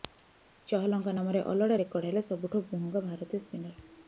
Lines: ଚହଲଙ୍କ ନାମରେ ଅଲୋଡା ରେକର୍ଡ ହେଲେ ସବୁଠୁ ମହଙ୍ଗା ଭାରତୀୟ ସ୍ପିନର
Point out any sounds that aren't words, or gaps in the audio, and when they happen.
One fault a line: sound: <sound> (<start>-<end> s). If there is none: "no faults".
no faults